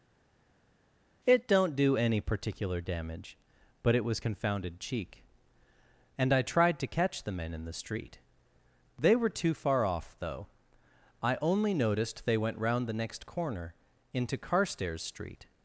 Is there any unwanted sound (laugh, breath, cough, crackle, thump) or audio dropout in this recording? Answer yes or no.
no